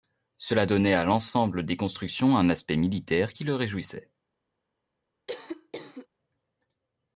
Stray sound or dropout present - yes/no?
yes